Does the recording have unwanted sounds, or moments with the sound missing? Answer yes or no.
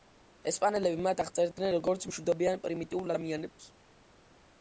no